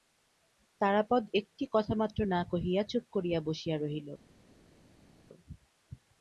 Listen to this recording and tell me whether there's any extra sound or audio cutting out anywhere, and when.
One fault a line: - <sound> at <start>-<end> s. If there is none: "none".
none